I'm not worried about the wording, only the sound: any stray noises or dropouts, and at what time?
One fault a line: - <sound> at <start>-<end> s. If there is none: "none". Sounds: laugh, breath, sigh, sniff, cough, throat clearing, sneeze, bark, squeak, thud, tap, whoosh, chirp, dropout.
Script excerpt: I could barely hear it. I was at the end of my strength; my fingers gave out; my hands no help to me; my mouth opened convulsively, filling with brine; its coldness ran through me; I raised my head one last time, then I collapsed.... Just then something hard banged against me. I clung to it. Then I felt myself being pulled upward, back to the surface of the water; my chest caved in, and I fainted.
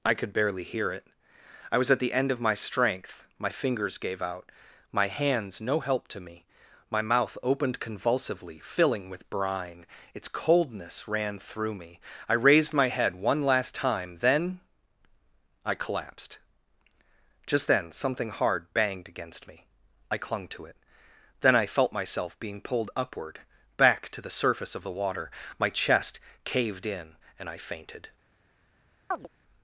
- chirp at 29.1-29.3 s